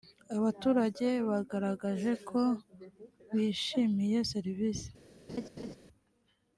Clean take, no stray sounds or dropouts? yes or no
no